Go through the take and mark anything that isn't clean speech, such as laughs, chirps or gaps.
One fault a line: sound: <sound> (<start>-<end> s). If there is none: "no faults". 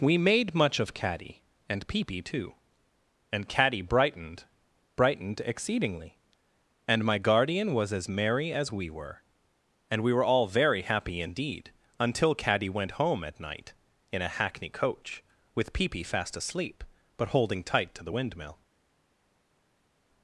no faults